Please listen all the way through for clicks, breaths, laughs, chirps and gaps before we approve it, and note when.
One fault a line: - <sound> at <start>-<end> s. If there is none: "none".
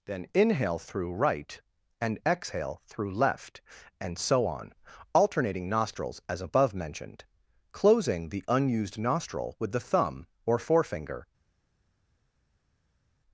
none